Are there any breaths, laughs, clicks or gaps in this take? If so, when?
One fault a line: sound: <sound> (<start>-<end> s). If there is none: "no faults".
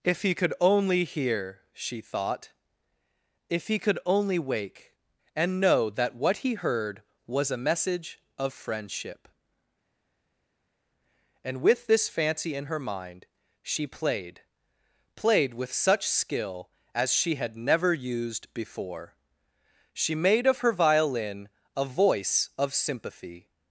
no faults